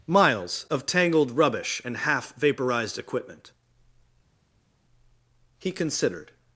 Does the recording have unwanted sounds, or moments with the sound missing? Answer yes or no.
no